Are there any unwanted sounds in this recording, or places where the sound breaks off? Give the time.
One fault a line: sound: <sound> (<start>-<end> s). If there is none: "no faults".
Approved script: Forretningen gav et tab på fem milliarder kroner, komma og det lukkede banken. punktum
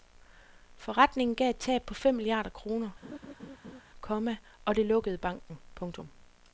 sound: laugh (3.0-3.8 s)